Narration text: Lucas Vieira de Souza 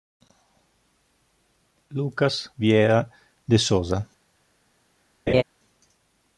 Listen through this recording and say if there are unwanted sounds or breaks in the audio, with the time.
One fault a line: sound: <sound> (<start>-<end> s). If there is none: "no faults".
sound: laugh (5.3-5.4 s)